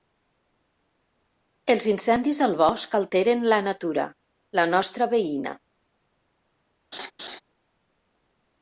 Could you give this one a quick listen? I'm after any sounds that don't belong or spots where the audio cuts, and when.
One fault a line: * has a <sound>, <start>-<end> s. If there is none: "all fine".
* has a laugh, 6.9-7.4 s